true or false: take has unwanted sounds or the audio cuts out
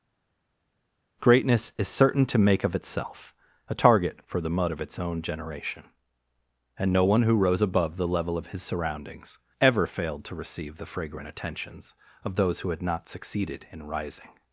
false